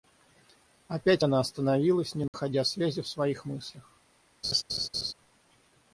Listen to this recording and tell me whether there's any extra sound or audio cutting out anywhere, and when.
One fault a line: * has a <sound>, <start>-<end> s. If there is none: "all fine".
* has a dropout, 2.3-2.3 s
* has a laugh, 4.4-5.1 s